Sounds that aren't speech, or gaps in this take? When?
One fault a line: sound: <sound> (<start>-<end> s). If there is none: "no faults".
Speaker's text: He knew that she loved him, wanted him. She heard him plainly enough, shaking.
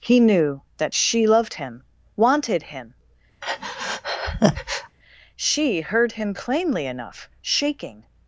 sound: breath (3.4-5.0 s)